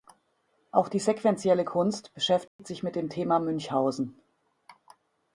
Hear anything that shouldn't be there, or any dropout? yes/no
yes